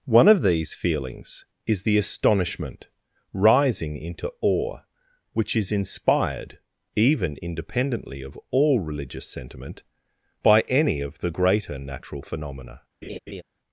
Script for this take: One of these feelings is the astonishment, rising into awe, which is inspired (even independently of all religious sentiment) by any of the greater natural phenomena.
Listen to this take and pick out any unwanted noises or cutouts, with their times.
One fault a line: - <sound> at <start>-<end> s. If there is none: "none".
- laugh at 13.0-13.4 s